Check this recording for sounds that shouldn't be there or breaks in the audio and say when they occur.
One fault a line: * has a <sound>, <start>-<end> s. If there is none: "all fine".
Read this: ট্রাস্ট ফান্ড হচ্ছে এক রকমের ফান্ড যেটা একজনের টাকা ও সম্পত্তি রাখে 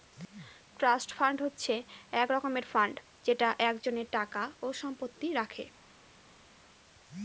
all fine